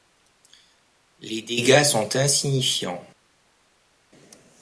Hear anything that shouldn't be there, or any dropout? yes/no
no